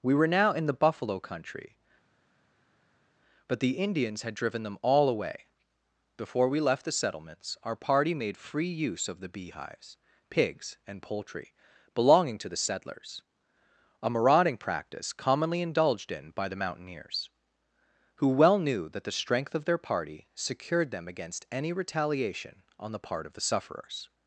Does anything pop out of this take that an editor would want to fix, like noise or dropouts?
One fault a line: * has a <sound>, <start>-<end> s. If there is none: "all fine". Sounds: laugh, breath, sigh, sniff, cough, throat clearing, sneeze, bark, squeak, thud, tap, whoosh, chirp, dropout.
all fine